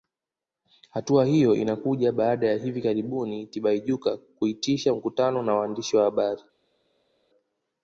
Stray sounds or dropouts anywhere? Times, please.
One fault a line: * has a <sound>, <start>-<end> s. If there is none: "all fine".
all fine